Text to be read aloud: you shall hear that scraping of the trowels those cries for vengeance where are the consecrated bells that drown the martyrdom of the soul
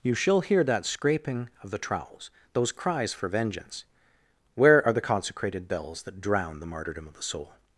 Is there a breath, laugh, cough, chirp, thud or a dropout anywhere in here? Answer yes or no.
no